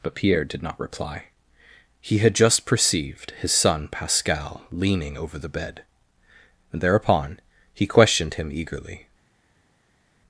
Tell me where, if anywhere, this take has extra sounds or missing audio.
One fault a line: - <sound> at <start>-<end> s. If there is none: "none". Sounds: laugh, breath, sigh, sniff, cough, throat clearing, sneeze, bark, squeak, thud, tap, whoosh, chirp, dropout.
none